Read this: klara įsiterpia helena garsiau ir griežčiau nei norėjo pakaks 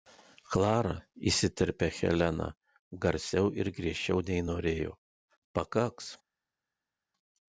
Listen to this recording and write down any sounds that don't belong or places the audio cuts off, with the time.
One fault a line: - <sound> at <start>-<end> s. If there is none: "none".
none